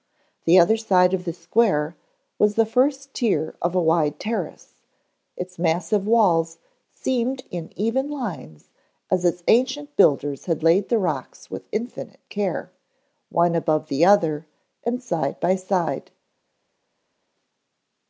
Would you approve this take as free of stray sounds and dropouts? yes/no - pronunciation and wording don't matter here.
yes